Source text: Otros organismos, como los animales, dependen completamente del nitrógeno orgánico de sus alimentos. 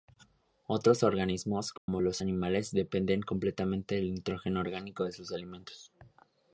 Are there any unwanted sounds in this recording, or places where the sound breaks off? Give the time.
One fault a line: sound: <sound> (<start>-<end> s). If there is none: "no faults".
sound: dropout (1.8-1.9 s)